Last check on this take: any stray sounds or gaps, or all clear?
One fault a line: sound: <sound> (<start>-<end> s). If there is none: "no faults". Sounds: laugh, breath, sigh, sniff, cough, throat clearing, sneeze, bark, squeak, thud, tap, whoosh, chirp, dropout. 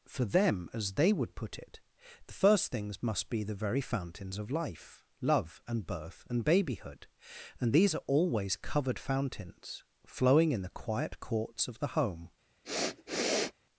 sound: sniff (12.6-13.5 s)